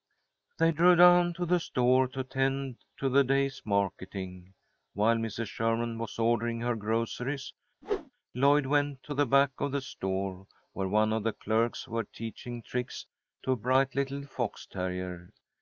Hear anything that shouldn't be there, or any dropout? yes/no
yes